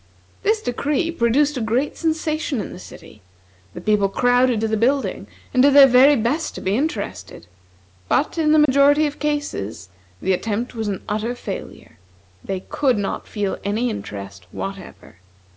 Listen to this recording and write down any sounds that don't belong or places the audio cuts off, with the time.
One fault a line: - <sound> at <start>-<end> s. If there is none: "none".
- dropout at 8.7-8.7 s